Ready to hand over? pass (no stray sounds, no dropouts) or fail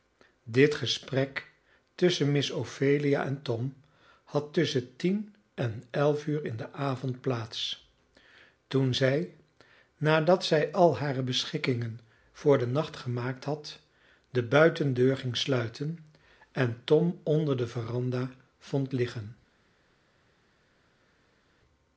pass